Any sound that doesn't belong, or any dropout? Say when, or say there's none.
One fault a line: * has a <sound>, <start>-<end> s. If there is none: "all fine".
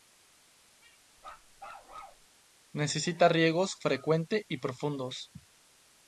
* has a bark, 1.2-2.3 s